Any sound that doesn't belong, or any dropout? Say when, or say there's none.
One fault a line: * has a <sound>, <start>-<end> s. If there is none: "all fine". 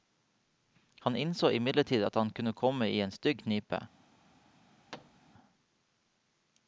* has a thud, 4.9-5.3 s